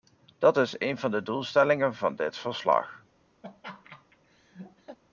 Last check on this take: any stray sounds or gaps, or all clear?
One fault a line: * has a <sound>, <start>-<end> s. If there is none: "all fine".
* has a laugh, 3.4-5.0 s